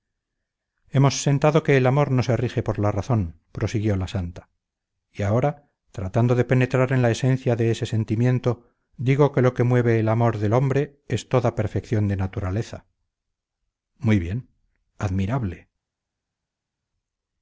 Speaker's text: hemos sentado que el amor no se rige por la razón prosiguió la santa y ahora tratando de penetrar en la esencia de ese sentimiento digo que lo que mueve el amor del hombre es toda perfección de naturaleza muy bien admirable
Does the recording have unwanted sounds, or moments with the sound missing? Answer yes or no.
no